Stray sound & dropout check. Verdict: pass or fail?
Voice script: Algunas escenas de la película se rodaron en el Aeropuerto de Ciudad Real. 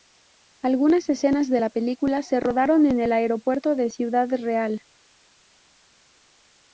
pass